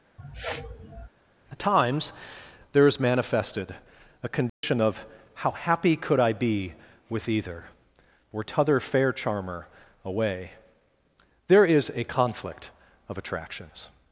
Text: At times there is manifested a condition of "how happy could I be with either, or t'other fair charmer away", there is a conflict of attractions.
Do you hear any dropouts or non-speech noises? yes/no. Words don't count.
yes